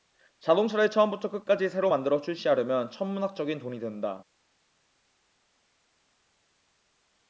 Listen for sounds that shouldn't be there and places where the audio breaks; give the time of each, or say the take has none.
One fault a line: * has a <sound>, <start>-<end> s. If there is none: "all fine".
all fine